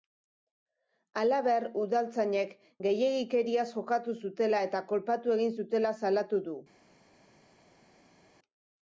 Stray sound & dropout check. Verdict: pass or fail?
pass